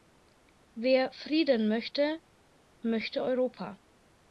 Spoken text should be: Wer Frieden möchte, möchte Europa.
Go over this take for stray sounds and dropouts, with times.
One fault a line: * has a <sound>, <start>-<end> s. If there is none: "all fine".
all fine